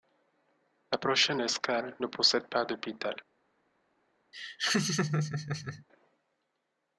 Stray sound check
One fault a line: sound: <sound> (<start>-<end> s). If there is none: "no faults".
sound: laugh (4.3-5.8 s)